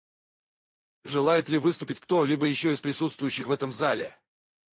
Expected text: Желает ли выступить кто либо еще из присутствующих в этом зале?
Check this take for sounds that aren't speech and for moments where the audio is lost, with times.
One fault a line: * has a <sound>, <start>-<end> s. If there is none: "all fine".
all fine